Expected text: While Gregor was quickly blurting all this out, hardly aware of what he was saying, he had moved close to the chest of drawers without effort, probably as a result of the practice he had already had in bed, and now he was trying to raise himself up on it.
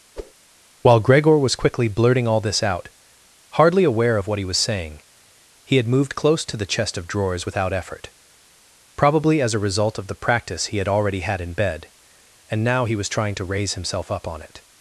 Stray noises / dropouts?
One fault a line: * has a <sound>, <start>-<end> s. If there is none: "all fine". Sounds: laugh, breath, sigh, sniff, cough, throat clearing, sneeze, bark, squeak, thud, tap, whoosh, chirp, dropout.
* has a whoosh, 0.2-0.3 s